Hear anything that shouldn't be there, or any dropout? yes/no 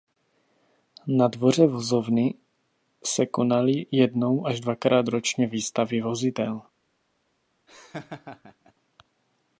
yes